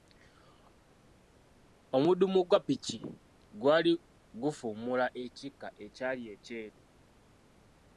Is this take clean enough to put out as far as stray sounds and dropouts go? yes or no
yes